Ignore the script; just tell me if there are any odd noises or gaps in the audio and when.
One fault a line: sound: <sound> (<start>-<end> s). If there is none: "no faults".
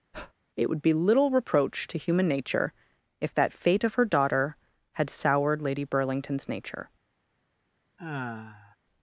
sound: breath (0.1-0.3 s)
sound: sigh (8.0-8.8 s)